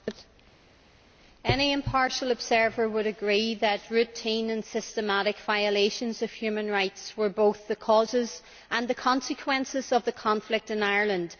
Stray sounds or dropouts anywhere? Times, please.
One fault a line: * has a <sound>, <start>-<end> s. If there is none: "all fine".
all fine